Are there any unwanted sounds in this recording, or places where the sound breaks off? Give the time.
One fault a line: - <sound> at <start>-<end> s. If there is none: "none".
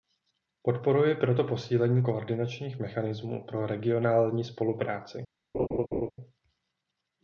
- laugh at 5.5-6.1 s